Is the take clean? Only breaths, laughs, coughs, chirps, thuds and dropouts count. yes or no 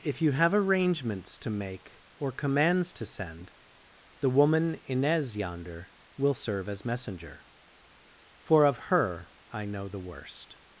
yes